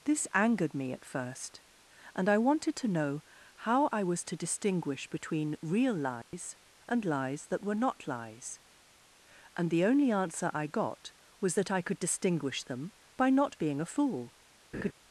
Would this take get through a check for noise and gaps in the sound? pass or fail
fail